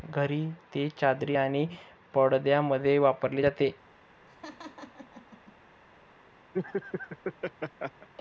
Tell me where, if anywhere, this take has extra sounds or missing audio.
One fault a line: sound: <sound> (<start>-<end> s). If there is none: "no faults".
sound: laugh (4.3-5.6 s)
sound: laugh (6.5-8.1 s)